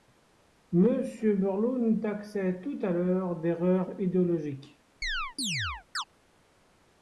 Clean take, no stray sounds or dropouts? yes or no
no